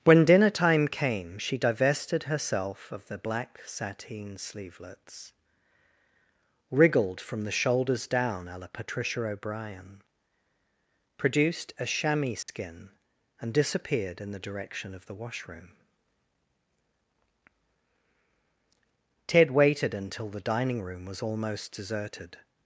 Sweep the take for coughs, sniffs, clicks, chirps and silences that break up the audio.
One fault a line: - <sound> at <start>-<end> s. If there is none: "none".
- dropout at 12.4-12.5 s